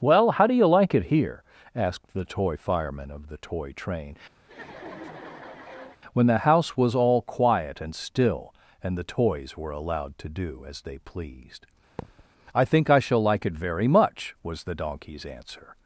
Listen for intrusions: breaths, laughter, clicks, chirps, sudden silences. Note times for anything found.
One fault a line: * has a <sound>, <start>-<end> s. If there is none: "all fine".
* has a laugh, 4.4-6.0 s
* has a thud, 12.0-12.3 s